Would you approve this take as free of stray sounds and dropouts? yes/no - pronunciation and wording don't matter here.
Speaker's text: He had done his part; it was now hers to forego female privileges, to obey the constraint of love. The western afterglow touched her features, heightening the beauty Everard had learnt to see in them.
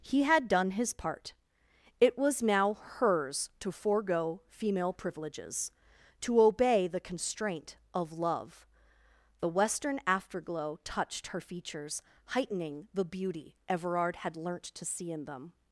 yes